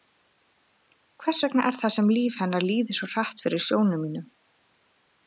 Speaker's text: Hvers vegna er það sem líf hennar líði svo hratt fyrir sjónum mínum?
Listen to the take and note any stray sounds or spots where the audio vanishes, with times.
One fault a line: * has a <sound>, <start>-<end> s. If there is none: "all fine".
all fine